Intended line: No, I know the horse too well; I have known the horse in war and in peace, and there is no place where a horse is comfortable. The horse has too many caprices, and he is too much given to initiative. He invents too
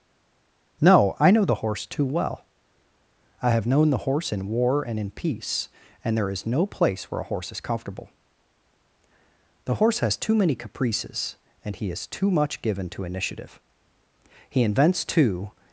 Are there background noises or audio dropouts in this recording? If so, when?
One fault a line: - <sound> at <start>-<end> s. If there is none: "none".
none